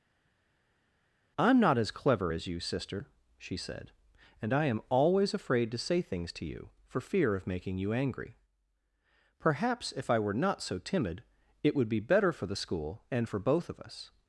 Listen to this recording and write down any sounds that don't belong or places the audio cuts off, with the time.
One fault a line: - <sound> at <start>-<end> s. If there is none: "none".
none